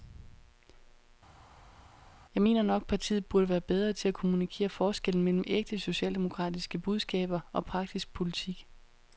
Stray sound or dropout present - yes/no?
no